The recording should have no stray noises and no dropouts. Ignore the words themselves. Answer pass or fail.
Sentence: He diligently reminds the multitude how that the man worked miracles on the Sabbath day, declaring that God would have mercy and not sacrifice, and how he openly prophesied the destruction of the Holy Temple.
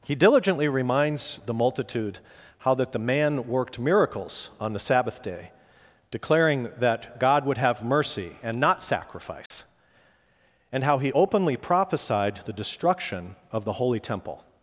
fail